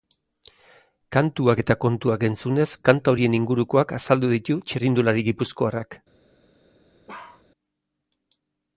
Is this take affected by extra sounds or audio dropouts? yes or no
yes